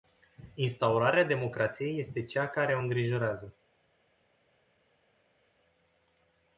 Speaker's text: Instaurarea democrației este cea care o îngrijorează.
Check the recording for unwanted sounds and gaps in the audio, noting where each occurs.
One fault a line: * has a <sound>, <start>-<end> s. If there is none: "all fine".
all fine